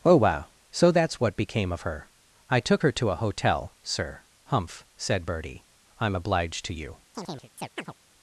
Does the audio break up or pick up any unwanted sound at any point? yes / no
yes